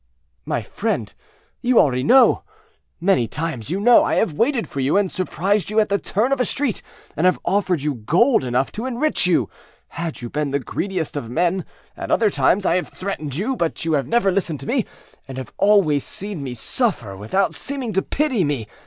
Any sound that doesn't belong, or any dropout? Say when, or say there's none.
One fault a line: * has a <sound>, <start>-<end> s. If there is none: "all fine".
all fine